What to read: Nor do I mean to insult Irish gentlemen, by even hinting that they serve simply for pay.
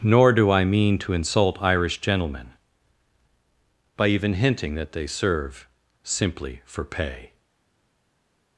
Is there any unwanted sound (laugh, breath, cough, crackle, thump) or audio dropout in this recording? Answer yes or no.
no